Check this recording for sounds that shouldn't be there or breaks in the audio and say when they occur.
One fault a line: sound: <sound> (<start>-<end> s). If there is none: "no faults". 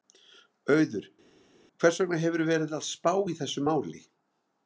no faults